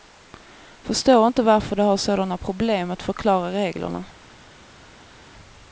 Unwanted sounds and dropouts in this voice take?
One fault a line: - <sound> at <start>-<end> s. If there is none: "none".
none